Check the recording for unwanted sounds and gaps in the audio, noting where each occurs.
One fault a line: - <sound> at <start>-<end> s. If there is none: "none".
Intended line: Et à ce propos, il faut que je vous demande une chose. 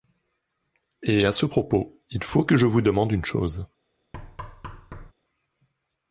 - thud at 4.1-5.1 s